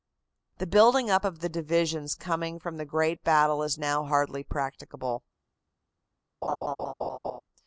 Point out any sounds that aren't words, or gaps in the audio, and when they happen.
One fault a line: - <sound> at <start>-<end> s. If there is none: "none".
- laugh at 6.4-7.4 s